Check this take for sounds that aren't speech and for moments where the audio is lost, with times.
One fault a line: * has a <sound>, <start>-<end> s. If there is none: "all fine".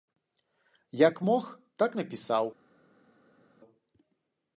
all fine